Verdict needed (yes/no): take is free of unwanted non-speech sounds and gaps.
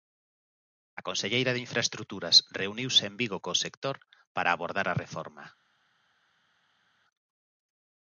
yes